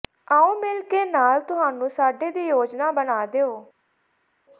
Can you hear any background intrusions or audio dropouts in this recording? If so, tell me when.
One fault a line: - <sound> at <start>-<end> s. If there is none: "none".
none